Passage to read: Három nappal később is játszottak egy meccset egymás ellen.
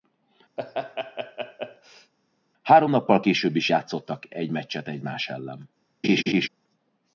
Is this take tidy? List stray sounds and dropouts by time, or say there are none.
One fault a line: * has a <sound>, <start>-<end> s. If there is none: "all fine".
* has a laugh, 0.6-2.1 s
* has a laugh, 6.0-6.5 s